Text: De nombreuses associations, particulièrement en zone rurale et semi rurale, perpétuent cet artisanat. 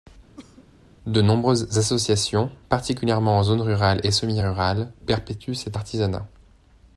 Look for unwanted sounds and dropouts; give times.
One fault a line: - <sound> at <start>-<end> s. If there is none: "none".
- cough at 0.4-0.7 s